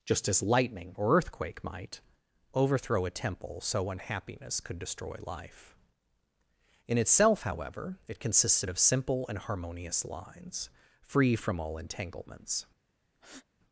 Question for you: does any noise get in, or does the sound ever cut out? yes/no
yes